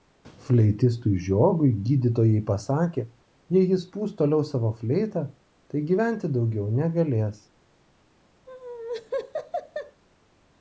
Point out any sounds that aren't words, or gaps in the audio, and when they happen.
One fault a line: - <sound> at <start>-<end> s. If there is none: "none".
- laugh at 8.5-10.0 s